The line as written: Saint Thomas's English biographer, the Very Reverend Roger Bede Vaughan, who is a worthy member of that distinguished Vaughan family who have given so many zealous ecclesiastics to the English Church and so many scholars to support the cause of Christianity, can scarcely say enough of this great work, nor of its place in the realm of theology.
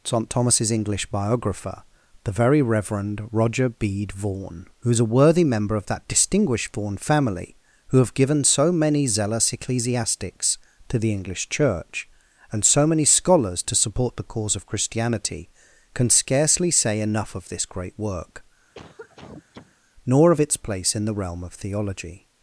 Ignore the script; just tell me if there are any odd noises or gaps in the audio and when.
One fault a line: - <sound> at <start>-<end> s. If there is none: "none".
- cough at 18.7-19.7 s